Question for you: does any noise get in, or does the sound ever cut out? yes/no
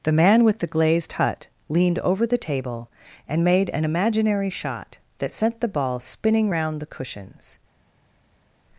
no